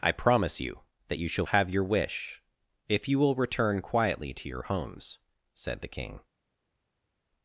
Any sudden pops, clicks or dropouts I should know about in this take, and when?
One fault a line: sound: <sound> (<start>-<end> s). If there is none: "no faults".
no faults